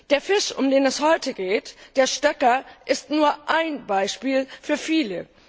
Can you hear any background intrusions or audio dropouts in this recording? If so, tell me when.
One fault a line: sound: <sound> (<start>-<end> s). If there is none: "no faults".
no faults